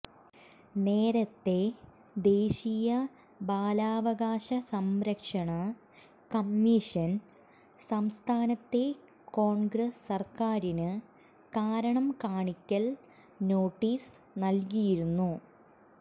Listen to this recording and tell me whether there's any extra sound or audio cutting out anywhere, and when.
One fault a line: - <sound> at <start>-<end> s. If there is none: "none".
none